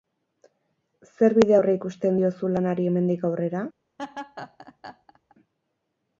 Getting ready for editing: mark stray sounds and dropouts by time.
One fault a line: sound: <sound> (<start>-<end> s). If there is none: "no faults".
sound: laugh (4.0-5.4 s)